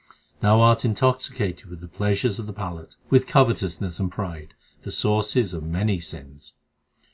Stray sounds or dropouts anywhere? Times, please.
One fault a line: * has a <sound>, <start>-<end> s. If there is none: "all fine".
all fine